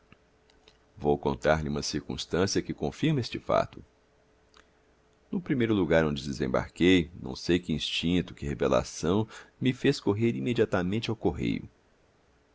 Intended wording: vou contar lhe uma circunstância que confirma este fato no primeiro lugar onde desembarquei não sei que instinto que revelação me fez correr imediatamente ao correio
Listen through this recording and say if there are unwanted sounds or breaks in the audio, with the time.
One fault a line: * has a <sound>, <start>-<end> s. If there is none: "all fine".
all fine